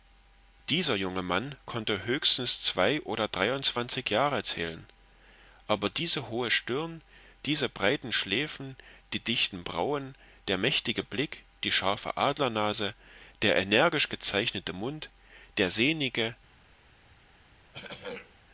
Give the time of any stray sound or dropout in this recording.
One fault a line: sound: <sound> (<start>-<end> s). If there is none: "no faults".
sound: throat clearing (17.7-18.3 s)